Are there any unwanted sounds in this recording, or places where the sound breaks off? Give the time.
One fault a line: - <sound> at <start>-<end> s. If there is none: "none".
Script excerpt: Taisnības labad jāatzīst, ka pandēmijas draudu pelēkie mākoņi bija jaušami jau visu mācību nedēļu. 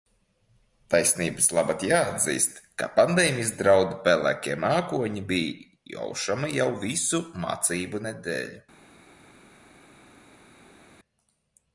none